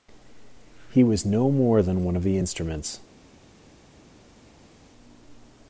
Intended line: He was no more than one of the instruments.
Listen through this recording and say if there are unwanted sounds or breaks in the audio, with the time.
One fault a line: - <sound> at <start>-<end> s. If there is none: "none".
none